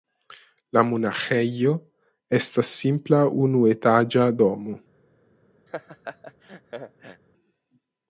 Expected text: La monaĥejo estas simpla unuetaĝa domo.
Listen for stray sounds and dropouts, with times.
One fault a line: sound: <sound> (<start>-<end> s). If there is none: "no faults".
sound: laugh (5.7-7.2 s)